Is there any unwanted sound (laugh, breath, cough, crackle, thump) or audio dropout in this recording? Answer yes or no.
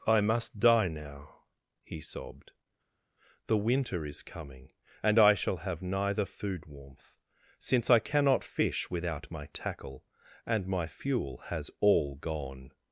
no